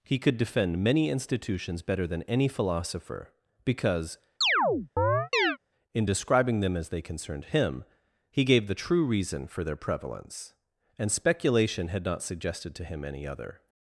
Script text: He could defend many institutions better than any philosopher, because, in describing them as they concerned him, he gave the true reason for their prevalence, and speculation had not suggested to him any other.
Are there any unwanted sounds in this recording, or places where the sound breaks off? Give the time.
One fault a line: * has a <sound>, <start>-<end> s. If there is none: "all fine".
* has a chirp, 4.4-5.6 s